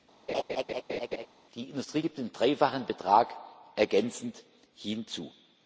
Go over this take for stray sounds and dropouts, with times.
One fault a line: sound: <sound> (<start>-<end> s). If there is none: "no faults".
sound: laugh (0.3-1.3 s)